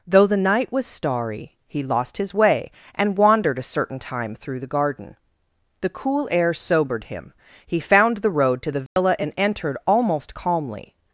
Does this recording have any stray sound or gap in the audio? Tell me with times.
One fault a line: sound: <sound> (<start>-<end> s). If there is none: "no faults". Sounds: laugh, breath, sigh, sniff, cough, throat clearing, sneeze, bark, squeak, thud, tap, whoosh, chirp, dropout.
sound: dropout (8.9-9.0 s)